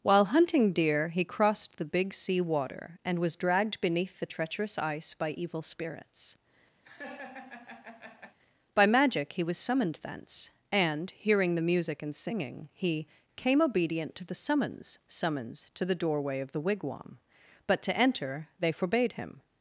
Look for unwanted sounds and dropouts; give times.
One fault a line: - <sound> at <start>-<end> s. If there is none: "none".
- laugh at 6.8-8.4 s